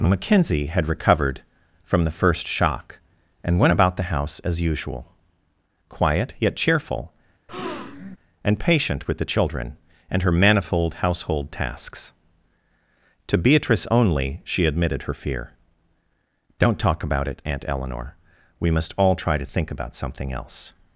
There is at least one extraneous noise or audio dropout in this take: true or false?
true